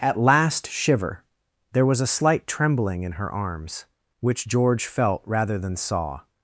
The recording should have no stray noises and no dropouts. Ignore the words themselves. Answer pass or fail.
pass